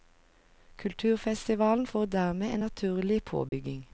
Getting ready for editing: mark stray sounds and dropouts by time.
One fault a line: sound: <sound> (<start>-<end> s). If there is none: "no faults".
sound: dropout (3.5-3.5 s)